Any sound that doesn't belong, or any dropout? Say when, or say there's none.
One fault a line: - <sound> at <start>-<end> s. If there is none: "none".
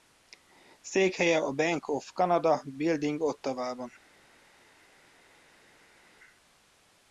none